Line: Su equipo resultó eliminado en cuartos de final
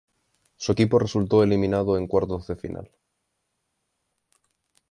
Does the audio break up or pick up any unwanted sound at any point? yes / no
no